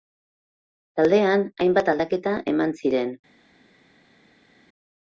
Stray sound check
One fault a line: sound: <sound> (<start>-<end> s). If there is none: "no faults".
no faults